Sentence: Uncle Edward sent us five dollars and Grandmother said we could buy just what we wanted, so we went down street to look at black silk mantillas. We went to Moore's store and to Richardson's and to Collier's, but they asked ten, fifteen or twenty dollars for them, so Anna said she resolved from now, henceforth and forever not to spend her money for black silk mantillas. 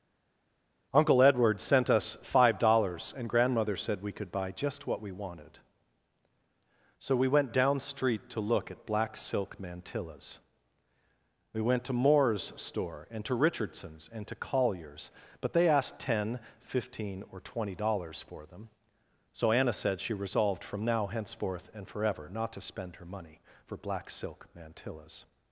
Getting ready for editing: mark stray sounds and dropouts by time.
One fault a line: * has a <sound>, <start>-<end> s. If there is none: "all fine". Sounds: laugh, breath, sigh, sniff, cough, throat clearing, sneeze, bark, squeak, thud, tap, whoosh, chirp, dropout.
all fine